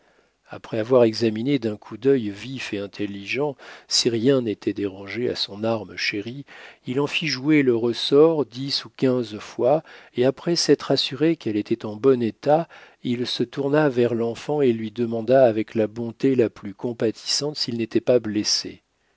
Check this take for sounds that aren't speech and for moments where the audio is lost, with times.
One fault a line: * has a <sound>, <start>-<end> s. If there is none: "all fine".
all fine